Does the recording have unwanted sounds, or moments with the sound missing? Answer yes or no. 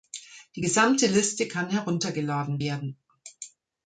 no